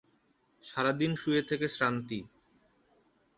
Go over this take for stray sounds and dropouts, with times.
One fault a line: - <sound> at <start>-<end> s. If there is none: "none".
none